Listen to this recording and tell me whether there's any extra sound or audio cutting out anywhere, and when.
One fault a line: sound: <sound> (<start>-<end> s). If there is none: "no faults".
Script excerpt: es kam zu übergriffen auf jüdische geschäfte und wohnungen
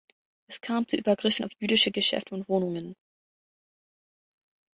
no faults